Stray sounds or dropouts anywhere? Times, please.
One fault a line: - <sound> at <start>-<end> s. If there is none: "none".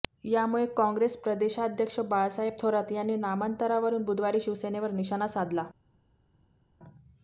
none